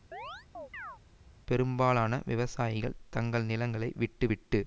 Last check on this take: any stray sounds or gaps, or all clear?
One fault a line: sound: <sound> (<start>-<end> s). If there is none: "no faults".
sound: chirp (0.1-1.0 s)